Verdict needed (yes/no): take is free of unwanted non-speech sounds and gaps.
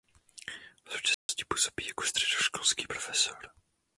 no